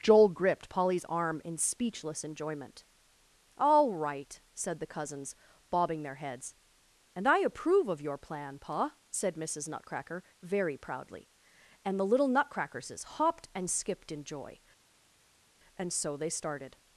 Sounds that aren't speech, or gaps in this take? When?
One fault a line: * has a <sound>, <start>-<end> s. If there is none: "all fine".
all fine